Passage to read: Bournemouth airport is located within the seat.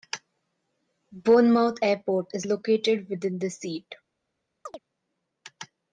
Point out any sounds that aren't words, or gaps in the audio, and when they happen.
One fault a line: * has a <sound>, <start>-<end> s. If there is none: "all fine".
* has a chirp, 4.7-4.8 s